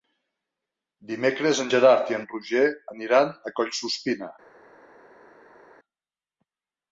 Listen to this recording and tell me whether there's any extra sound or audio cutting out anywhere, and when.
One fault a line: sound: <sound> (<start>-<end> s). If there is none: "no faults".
no faults